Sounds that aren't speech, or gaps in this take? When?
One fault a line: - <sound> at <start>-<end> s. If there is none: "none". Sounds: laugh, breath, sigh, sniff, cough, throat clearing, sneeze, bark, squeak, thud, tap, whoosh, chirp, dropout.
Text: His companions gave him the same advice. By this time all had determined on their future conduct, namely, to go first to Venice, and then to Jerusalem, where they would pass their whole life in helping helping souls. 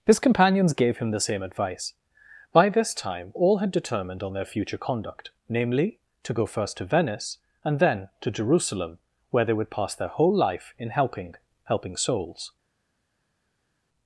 none